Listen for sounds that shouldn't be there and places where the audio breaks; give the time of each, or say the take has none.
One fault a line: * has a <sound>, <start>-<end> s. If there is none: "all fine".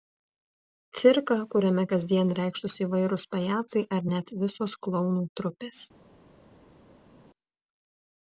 all fine